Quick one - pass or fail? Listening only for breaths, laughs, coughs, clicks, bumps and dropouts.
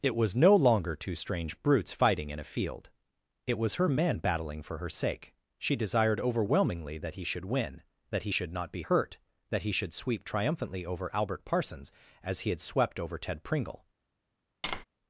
fail